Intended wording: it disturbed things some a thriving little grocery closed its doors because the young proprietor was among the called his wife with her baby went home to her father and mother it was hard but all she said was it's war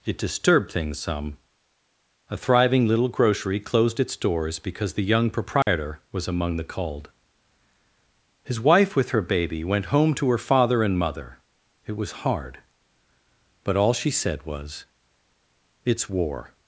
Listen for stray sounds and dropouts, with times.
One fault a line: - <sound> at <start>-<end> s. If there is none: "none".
- dropout at 5.6-5.7 s